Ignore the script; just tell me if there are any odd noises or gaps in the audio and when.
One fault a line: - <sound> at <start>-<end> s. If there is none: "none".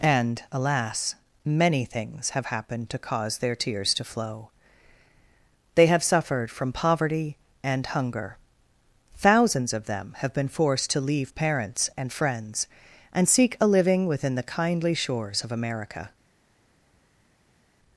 none